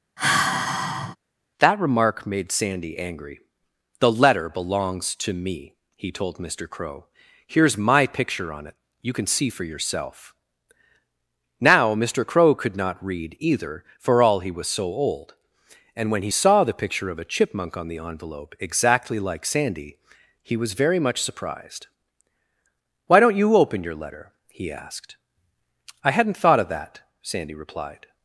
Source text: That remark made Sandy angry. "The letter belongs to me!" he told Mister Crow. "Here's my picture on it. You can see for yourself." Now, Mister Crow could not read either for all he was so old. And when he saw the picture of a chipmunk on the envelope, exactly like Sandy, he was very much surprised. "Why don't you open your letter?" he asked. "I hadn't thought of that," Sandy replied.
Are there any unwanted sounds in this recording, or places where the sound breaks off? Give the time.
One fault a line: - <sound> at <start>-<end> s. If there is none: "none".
- sigh at 0.2-1.2 s